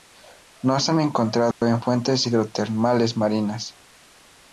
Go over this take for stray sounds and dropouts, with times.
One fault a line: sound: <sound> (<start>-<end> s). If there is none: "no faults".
sound: dropout (1.5-1.6 s)